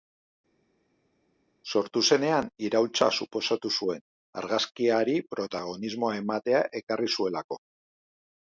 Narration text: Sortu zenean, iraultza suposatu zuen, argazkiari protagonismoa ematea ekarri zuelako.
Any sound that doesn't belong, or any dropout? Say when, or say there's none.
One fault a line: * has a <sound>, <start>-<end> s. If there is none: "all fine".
all fine